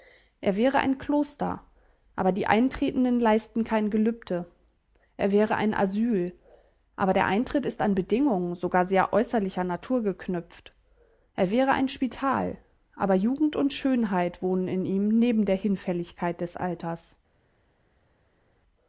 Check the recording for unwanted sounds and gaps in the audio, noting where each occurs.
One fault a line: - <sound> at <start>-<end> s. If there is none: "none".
none